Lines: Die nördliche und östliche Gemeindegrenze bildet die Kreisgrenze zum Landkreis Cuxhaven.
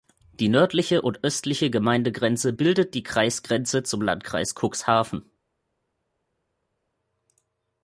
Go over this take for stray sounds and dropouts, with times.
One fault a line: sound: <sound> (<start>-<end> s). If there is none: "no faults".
no faults